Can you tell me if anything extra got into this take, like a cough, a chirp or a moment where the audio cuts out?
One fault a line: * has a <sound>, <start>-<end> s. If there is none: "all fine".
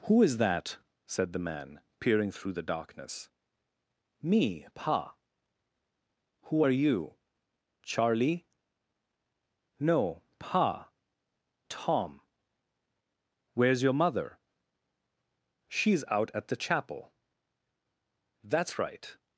all fine